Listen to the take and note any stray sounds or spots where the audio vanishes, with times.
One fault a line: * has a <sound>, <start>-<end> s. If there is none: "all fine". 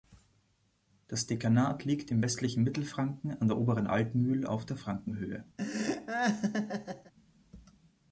* has a laugh, 5.6-7.1 s